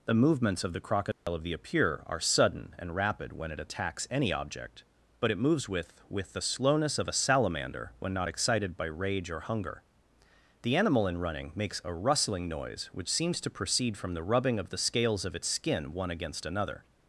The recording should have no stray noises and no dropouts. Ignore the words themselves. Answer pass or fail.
fail